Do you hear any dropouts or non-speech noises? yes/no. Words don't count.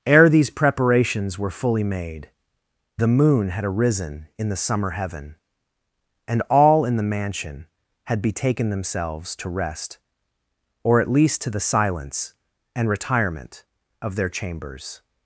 no